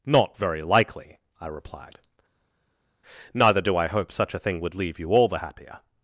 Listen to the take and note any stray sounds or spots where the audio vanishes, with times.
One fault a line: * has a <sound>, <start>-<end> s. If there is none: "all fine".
all fine